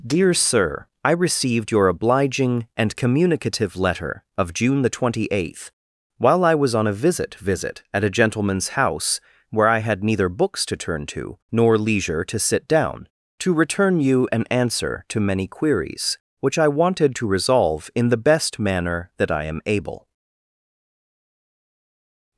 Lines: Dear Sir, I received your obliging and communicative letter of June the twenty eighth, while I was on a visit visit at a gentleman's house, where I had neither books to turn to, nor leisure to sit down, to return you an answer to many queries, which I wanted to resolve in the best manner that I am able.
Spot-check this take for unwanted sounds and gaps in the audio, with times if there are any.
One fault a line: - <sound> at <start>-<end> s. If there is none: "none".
none